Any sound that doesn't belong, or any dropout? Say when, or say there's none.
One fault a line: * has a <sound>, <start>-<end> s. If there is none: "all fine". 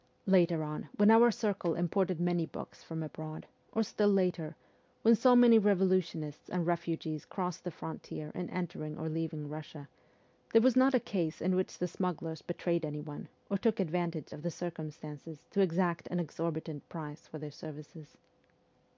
all fine